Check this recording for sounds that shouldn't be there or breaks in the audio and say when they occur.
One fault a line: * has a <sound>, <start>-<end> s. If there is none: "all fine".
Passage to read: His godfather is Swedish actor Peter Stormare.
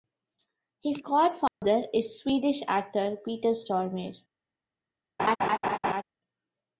* has a dropout, 1.5-1.6 s
* has a laugh, 5.2-6.0 s